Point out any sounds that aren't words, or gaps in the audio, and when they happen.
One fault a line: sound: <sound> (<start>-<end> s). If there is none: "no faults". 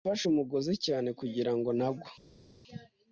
no faults